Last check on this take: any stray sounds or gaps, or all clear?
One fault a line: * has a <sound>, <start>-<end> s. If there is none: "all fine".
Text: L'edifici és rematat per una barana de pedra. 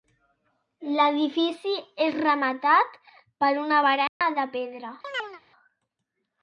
* has a dropout, 4.1-4.2 s
* has a chirp, 5.0-5.4 s